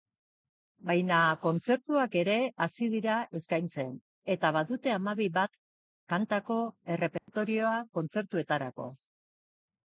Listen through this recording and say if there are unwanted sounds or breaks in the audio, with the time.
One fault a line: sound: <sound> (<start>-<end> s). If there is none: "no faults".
sound: dropout (7.2-7.3 s)